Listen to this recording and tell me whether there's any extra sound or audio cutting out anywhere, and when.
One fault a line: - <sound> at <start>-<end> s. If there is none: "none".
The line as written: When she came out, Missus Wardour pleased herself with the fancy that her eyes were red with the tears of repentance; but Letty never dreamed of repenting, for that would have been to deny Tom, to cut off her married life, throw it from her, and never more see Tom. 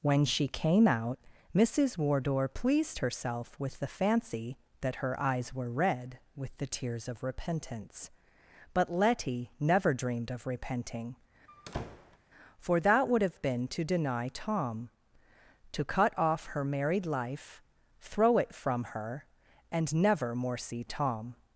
- squeak at 11.5-12.2 s